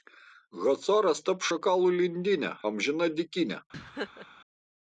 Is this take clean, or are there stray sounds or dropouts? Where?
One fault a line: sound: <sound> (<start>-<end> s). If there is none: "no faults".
sound: laugh (3.7-4.3 s)